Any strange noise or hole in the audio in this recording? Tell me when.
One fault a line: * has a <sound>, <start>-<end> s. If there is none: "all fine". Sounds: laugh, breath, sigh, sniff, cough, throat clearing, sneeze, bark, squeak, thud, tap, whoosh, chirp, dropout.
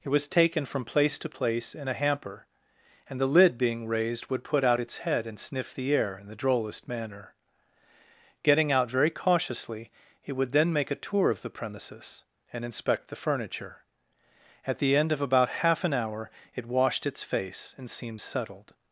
all fine